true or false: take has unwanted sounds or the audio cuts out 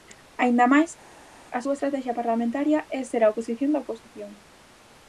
false